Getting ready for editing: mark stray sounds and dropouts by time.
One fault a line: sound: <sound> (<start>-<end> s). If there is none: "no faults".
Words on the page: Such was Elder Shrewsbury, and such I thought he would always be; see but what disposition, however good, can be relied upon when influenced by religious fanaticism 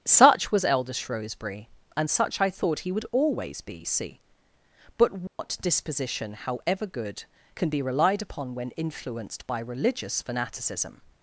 sound: dropout (5.3-5.4 s)